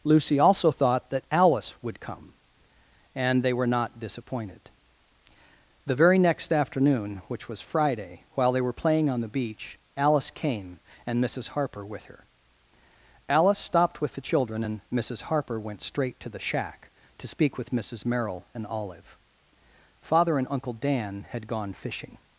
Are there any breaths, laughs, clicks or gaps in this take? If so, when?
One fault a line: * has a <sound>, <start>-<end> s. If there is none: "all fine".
all fine